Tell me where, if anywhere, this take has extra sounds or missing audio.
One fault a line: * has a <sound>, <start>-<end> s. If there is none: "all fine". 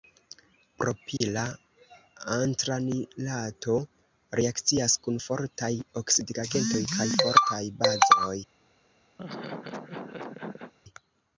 * has a dropout, 1.2-1.2 s
* has a laugh, 9.2-10.7 s